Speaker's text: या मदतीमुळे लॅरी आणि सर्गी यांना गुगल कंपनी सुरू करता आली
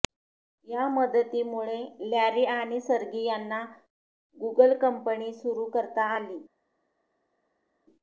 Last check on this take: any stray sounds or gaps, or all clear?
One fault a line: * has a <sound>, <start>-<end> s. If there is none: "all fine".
all fine